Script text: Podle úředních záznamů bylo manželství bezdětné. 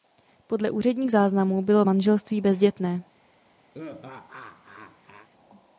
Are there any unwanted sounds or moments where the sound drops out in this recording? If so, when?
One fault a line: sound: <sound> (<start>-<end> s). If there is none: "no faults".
sound: laugh (3.7-5.3 s)